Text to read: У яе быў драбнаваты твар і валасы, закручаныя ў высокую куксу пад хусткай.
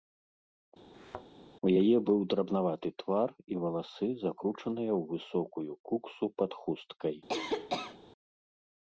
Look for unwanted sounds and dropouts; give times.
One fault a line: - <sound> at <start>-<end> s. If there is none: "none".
- thud at 0.9-1.3 s
- cough at 7.3-8.0 s